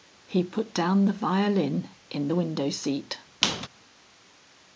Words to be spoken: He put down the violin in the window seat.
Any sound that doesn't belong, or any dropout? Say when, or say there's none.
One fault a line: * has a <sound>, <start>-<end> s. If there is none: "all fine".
* has a squeak, 3.4-3.7 s